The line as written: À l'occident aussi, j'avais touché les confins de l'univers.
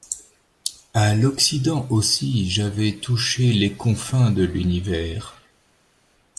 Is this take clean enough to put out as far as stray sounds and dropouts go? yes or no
yes